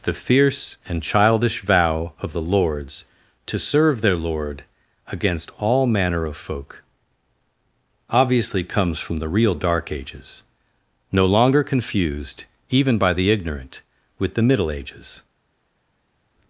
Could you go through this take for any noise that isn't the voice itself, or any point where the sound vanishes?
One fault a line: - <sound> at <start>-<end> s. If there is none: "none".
none